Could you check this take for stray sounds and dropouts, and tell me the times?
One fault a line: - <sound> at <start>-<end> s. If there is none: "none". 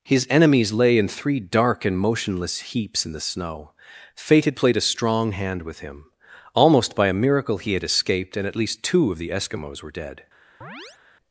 - chirp at 10.6-11.0 s